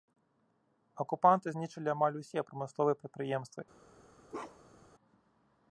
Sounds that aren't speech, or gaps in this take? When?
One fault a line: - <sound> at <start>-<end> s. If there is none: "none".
- bark at 4.3-4.9 s